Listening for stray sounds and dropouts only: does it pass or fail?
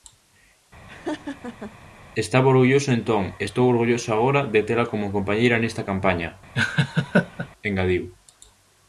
fail